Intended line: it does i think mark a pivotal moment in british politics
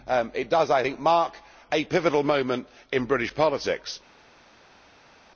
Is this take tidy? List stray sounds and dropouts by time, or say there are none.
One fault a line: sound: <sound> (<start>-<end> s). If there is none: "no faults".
no faults